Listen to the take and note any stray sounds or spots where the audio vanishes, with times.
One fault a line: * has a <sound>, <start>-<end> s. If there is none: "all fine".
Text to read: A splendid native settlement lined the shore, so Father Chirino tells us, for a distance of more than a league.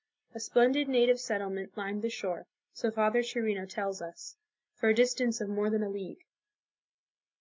all fine